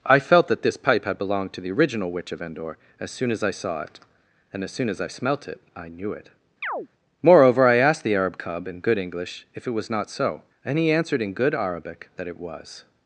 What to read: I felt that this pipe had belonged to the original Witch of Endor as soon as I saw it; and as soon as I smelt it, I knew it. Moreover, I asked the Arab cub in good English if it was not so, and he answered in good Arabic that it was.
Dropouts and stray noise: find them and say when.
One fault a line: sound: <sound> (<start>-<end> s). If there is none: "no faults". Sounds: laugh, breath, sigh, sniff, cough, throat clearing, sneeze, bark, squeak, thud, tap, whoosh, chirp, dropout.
sound: chirp (6.6-6.9 s)